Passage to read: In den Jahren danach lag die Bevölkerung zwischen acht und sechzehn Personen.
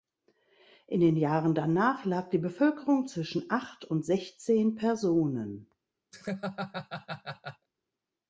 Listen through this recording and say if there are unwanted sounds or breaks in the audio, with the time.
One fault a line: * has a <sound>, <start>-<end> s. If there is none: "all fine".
* has a laugh, 6.1-7.7 s